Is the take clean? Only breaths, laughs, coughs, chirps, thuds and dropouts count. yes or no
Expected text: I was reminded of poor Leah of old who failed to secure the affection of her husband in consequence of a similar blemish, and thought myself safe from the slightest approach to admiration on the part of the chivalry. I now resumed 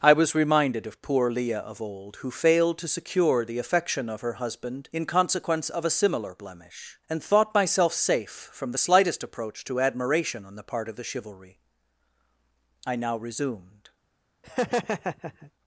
no